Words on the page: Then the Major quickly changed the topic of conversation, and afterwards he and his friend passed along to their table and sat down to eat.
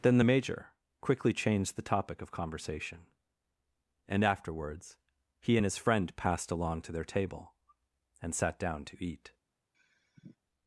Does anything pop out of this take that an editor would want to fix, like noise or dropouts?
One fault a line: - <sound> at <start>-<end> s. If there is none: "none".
- sigh at 9.7-10.4 s